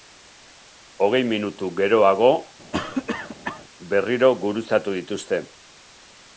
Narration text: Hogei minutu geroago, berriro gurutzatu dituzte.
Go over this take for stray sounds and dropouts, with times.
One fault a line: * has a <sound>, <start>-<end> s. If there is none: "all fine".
* has a cough, 2.7-3.6 s